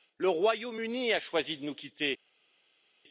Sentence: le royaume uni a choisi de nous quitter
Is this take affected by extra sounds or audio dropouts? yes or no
no